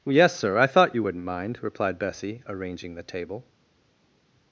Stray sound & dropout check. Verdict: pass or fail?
pass